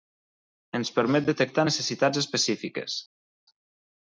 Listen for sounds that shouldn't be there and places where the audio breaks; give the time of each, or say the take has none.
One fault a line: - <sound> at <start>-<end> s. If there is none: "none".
none